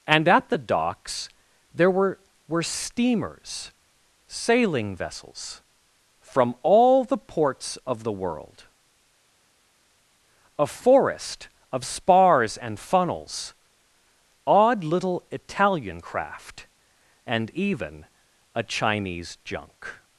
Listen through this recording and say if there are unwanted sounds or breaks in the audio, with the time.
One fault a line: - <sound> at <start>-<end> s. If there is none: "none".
none